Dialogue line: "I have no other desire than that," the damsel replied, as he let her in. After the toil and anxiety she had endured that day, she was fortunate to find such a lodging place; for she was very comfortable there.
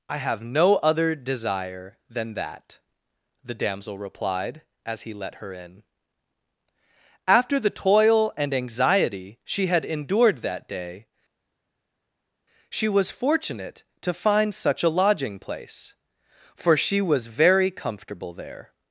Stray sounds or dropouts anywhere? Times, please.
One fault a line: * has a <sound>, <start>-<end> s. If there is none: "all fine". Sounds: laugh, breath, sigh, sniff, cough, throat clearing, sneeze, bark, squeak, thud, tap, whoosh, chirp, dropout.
all fine